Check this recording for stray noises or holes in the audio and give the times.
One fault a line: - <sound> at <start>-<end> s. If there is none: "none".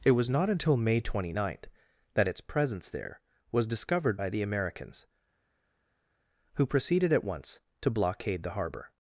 none